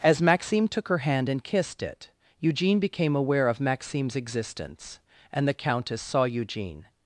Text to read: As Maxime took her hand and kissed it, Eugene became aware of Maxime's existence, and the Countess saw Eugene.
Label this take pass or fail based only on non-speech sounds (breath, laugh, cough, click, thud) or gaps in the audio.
pass